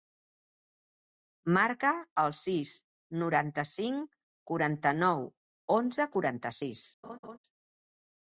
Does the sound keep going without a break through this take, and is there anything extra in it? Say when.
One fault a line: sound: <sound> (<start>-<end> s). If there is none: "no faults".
sound: laugh (7.0-7.4 s)